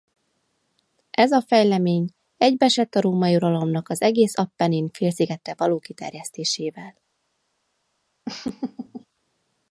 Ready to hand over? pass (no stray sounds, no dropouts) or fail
fail